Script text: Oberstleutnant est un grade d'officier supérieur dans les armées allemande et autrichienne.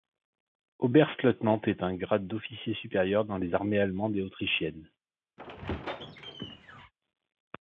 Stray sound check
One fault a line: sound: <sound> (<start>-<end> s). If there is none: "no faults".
sound: squeak (5.4-6.9 s)